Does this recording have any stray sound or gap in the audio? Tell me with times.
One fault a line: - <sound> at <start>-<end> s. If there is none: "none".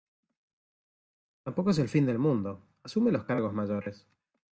none